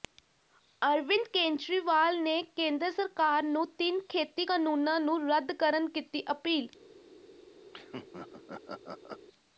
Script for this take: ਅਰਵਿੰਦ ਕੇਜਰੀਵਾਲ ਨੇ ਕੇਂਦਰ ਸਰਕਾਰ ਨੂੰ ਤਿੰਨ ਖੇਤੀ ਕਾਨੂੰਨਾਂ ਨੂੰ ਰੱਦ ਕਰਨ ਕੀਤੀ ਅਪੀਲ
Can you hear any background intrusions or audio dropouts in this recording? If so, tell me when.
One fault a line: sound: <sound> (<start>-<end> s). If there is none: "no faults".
sound: laugh (7.7-9.3 s)